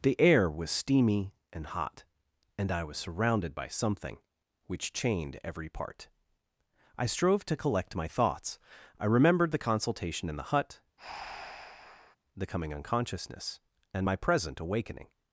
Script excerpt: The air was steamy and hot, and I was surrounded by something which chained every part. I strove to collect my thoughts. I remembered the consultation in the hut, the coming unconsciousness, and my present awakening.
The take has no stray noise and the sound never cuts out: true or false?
false